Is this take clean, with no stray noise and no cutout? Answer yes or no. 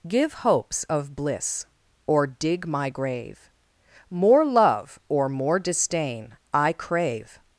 yes